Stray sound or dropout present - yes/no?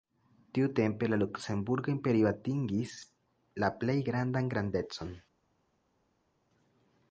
no